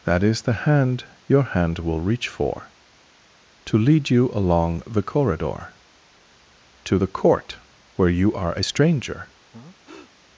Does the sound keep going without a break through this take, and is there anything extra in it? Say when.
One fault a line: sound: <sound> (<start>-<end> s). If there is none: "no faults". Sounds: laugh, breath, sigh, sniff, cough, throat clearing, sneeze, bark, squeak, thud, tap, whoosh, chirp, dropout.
sound: breath (9.5-10.1 s)